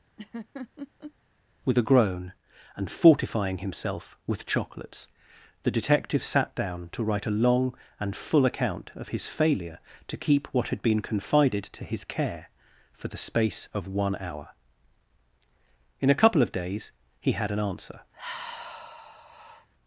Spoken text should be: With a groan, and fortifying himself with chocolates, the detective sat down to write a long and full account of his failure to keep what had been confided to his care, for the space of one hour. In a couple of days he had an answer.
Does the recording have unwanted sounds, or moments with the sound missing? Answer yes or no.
yes